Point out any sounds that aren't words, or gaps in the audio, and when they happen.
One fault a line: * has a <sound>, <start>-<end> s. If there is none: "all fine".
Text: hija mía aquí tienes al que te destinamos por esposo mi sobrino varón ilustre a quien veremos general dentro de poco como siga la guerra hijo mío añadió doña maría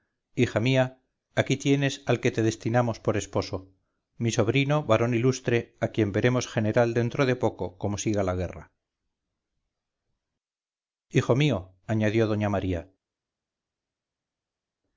all fine